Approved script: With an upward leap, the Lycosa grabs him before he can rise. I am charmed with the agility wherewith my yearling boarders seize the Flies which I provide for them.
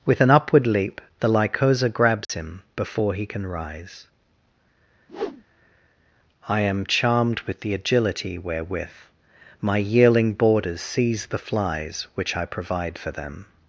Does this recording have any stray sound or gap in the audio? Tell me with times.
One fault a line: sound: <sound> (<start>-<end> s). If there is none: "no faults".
sound: dropout (2.2-2.3 s)
sound: whoosh (5.1-5.4 s)